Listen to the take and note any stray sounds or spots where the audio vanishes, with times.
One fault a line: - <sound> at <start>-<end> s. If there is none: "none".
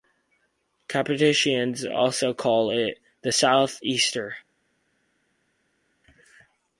none